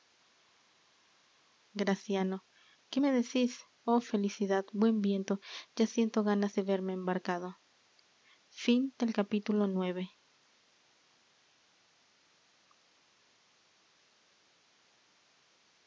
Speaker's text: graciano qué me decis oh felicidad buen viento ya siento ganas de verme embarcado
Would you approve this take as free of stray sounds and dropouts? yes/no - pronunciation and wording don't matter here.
yes